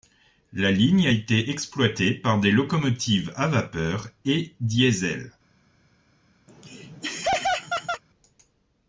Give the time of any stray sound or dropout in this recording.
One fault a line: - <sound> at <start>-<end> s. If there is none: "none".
- laugh at 6.5-8.0 s